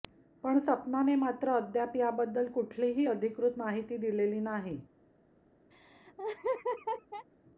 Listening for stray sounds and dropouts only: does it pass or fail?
fail